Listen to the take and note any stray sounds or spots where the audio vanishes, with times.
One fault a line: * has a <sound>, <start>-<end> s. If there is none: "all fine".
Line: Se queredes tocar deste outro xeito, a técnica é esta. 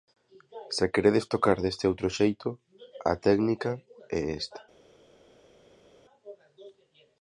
all fine